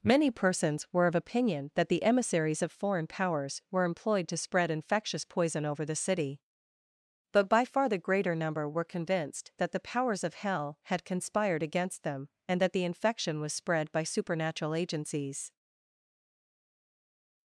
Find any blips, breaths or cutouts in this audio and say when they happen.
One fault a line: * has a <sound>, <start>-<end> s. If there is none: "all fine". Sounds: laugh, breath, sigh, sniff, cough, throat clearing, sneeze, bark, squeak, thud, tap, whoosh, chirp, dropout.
all fine